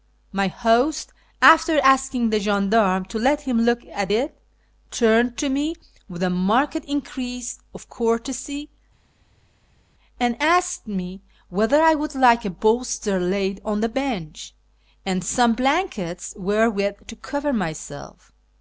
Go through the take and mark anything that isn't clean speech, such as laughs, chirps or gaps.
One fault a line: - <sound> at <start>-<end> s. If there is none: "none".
none